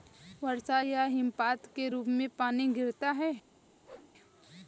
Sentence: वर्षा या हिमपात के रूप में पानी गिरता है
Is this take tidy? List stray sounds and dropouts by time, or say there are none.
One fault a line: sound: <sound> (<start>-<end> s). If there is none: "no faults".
sound: whoosh (3.8-4.1 s)